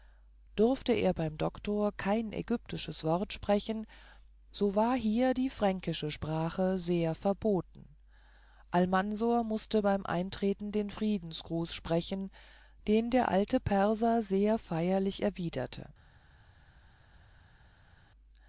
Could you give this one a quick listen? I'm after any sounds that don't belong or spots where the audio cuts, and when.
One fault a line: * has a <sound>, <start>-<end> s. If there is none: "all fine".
all fine